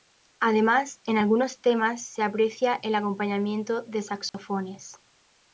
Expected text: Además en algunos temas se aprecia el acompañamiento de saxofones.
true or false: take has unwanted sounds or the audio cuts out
true